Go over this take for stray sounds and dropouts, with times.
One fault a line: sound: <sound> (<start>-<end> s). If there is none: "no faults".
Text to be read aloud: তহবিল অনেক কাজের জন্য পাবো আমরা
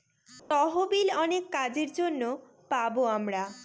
sound: dropout (0.4-0.5 s)